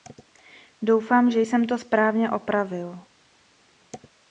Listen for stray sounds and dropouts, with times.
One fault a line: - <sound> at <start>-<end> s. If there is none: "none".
none